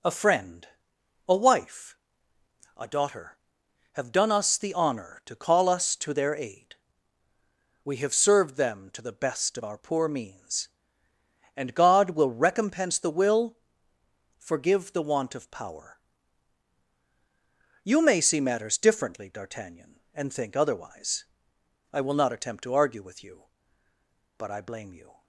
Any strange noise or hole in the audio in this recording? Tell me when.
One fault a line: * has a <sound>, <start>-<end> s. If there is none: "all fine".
all fine